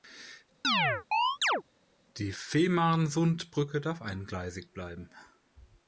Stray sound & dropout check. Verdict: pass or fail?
fail